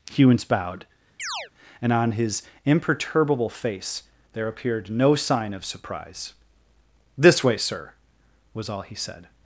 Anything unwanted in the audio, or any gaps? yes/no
yes